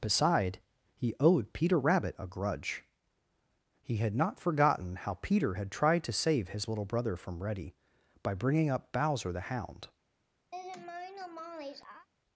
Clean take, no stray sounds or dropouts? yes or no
no